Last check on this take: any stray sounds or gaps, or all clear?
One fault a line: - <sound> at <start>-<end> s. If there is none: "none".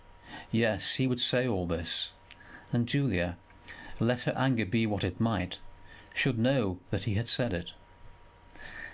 none